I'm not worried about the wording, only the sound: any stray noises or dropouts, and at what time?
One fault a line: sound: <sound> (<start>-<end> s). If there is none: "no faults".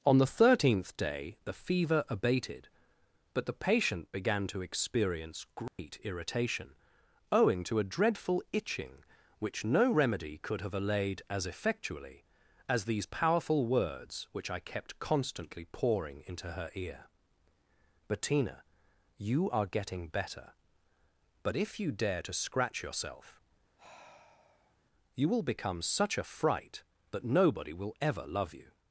sound: dropout (5.7-5.8 s)
sound: sigh (23.8-24.8 s)